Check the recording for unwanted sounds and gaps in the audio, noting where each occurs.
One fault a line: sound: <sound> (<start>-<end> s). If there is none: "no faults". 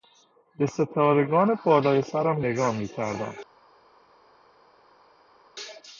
no faults